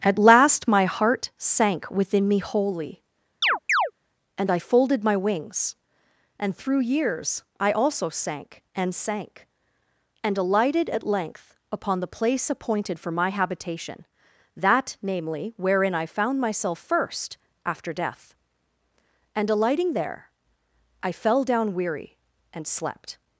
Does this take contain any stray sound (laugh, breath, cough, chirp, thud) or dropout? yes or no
yes